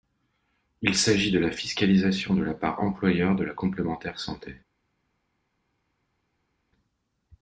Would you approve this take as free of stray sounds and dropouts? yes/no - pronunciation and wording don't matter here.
yes